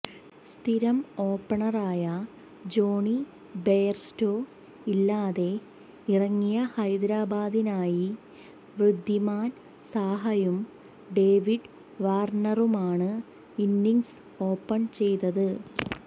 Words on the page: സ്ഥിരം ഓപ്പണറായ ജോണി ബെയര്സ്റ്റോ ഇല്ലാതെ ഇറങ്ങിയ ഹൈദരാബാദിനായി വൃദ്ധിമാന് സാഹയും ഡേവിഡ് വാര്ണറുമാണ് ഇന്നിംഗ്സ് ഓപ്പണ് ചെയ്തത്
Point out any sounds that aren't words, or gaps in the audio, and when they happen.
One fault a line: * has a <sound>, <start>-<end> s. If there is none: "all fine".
all fine